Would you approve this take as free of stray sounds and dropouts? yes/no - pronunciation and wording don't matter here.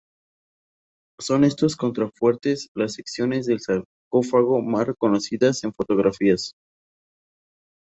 yes